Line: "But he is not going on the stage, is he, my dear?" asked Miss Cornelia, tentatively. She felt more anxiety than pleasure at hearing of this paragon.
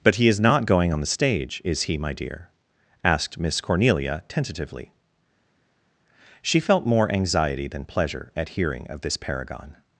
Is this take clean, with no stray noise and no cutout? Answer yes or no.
yes